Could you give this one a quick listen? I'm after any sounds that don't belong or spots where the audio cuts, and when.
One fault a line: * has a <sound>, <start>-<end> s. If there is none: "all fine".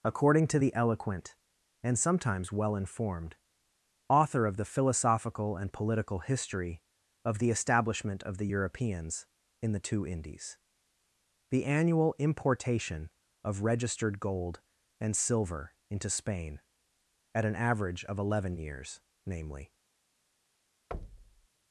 * has a thud, 20.9-21.5 s